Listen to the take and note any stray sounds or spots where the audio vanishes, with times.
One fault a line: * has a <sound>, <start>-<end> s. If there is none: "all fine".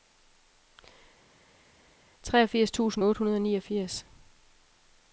all fine